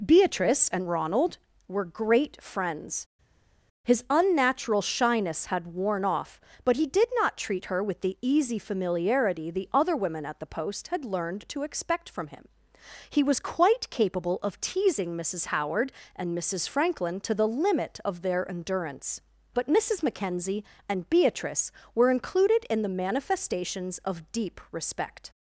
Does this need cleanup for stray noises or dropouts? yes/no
no